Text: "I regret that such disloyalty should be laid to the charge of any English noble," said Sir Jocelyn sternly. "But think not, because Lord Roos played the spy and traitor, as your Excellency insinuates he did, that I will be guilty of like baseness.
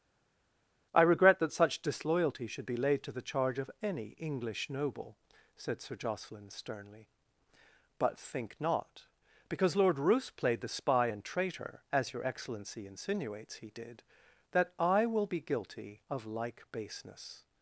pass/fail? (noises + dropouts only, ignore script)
pass